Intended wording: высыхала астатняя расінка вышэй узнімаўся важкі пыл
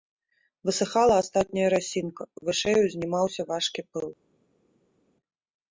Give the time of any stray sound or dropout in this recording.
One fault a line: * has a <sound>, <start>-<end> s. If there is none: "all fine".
all fine